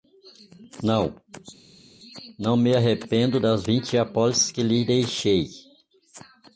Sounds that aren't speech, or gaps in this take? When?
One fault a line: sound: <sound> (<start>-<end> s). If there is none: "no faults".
no faults